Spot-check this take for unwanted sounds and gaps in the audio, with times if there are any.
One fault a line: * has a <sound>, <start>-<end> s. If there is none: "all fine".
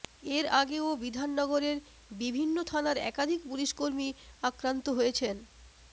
all fine